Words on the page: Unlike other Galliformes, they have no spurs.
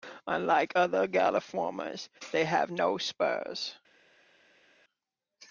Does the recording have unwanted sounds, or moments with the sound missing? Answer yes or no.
no